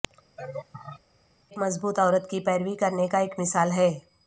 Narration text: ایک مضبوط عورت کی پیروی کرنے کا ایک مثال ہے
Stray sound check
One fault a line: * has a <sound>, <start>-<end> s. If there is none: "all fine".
* has a laugh, 0.4-1.0 s